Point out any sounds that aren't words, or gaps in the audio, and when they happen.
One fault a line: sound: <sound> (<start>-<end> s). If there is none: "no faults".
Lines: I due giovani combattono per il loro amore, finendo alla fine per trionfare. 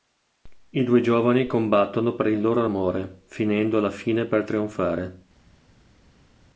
no faults